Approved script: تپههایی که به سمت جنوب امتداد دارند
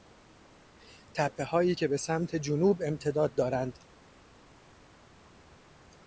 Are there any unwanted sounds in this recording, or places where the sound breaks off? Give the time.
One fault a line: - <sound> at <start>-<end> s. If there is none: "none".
none